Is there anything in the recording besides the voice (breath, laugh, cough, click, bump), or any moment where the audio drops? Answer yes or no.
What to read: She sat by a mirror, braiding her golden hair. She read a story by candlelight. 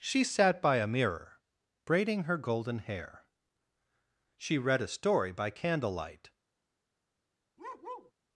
yes